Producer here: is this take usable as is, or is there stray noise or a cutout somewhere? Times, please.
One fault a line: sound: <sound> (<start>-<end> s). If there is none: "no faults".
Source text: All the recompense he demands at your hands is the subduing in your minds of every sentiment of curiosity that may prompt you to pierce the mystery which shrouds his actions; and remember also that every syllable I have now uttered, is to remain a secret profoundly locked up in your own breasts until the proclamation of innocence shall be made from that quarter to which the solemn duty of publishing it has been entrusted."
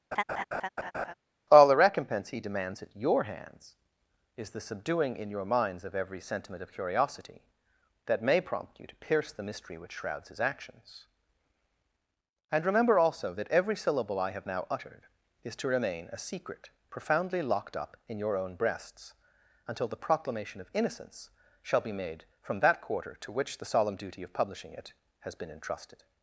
sound: laugh (0.1-1.1 s)